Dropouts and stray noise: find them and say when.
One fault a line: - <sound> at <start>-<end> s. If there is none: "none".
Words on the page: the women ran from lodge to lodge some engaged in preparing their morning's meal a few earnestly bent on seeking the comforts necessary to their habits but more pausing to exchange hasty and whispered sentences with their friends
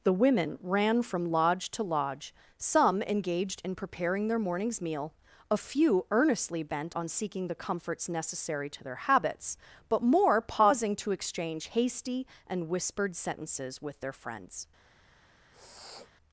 - sniff at 15.5-16.1 s